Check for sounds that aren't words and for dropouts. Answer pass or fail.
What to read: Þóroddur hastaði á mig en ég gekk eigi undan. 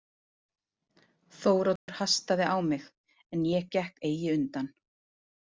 fail